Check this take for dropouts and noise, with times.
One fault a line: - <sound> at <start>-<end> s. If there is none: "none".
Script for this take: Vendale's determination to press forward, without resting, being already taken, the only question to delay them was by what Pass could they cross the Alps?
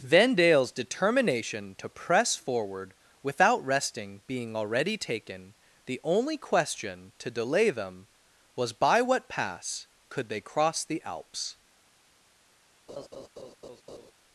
- laugh at 12.9-14.1 s